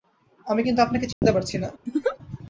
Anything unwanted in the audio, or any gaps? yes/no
yes